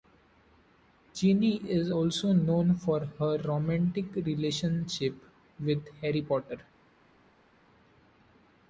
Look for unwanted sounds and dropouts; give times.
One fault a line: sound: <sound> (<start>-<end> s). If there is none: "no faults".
no faults